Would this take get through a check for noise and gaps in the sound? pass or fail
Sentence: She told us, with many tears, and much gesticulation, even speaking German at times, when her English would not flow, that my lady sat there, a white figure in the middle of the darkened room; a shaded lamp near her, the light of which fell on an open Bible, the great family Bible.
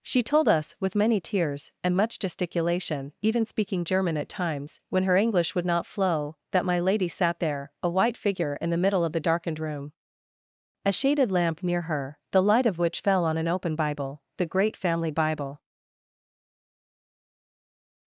pass